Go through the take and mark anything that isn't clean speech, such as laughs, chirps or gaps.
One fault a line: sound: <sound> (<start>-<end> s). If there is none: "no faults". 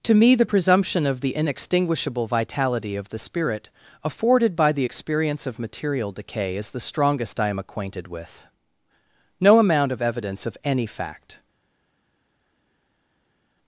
no faults